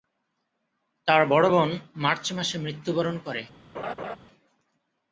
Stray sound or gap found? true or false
true